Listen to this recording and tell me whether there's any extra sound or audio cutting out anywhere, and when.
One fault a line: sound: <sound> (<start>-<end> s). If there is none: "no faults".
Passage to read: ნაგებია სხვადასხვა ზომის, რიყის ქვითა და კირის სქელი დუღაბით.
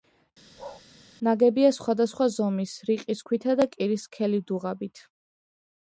sound: bark (0.6-0.8 s)